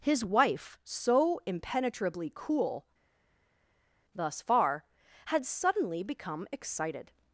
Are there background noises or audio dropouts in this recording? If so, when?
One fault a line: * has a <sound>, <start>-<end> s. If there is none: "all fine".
all fine